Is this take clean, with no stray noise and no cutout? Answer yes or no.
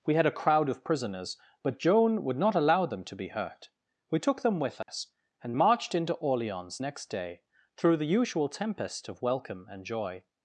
no